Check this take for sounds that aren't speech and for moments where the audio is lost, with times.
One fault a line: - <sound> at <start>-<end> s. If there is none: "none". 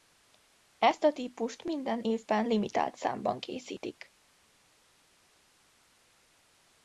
none